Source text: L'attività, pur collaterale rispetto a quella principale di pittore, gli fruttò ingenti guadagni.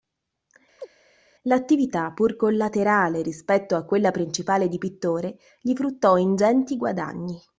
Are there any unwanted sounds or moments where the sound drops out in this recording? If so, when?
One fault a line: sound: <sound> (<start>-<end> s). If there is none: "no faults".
sound: chirp (0.8-0.9 s)